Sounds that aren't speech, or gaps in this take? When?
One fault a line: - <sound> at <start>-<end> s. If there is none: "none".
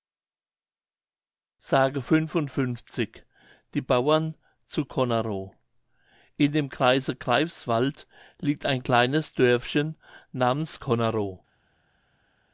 none